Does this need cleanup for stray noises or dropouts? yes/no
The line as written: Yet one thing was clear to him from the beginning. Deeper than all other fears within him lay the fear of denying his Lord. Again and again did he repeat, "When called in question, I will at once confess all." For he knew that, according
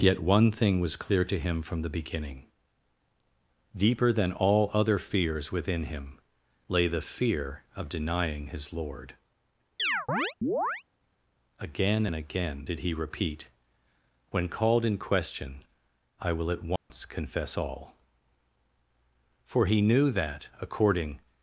yes